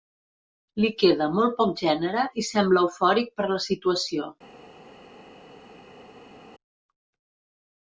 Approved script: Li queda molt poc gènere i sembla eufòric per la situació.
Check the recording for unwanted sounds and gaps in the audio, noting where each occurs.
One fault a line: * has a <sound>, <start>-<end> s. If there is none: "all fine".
all fine